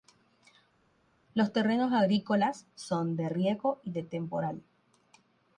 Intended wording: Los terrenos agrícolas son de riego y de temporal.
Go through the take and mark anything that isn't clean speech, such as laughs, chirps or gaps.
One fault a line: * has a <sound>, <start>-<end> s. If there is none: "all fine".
all fine